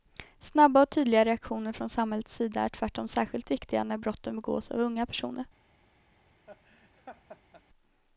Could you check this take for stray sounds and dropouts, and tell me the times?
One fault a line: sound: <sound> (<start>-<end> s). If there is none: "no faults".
sound: laugh (6.5-7.6 s)